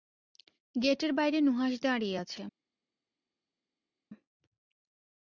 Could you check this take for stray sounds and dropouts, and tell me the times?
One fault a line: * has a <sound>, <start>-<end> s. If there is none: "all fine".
all fine